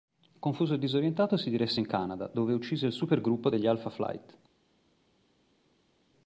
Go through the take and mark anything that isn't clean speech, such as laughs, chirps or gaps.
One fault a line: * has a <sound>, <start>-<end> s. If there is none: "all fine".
all fine